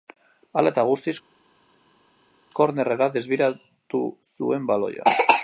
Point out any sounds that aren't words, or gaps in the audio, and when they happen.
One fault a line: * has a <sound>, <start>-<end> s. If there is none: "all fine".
all fine